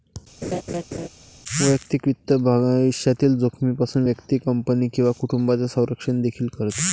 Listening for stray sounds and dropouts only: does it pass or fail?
fail